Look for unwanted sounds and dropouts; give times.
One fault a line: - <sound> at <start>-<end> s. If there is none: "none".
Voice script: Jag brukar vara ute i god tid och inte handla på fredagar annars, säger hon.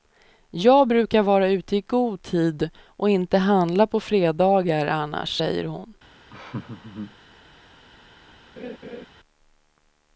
- laugh at 6.3-7.2 s
- laugh at 8.6-9.1 s